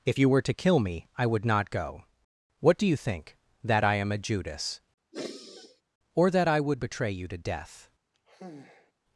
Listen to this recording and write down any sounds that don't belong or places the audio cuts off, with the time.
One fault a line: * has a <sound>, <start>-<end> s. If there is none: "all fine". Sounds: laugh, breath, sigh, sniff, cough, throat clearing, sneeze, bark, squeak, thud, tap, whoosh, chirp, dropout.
* has a sigh, 5.1-5.8 s
* has a sigh, 8.1-8.9 s